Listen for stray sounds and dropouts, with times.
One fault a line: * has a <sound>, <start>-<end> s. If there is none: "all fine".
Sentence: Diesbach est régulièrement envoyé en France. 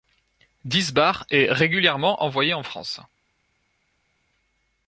all fine